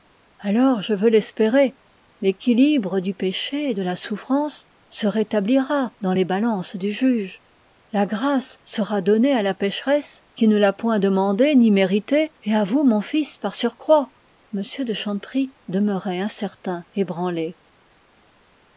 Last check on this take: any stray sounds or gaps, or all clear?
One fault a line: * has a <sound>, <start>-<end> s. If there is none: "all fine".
all fine